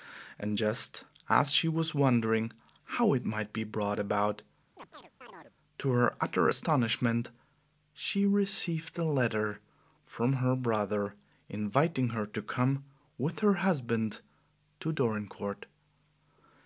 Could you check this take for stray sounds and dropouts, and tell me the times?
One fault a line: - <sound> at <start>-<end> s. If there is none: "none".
- chirp at 4.8-5.6 s